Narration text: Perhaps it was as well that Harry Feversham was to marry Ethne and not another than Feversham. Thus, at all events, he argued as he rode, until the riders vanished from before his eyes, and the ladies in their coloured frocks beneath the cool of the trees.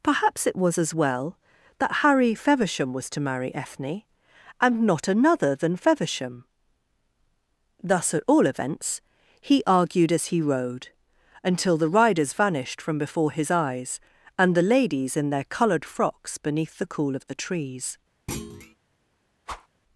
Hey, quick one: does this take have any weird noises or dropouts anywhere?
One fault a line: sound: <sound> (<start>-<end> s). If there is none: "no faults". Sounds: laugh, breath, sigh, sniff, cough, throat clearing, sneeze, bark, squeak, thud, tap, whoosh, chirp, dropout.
sound: thud (18.3-18.8 s)
sound: whoosh (19.5-19.7 s)